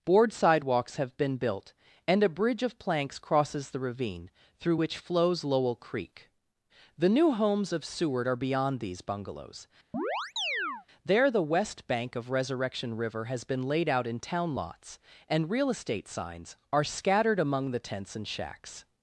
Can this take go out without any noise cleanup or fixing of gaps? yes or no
no